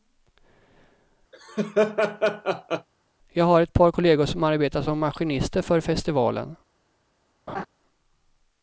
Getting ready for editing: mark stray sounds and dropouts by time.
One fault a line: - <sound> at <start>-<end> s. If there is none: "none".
- laugh at 1.3-2.9 s
- laugh at 7.5-7.7 s